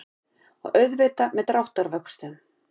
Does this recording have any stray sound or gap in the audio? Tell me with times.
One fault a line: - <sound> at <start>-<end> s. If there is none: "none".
none